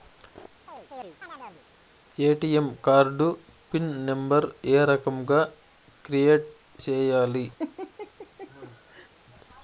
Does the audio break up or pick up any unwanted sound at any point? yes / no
yes